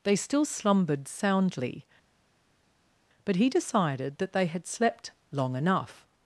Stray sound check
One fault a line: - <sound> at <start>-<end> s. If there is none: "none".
none